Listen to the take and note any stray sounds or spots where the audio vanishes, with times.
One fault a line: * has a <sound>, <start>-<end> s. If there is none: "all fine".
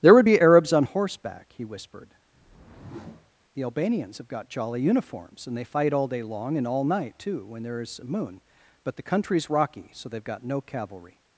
* has a whoosh, 2.3-3.3 s